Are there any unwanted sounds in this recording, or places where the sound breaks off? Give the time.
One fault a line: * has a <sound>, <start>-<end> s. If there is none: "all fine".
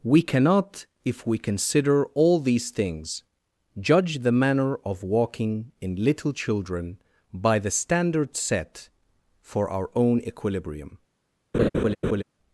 * has a laugh, 11.5-12.2 s